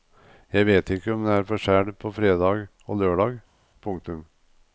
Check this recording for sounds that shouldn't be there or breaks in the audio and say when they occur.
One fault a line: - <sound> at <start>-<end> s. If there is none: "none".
none